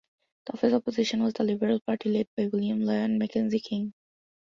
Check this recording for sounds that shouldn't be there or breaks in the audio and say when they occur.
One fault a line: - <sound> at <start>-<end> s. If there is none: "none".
none